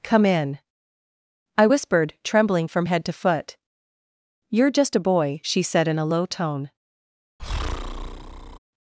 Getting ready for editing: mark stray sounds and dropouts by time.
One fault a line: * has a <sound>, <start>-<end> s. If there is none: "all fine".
* has a breath, 7.4-8.6 s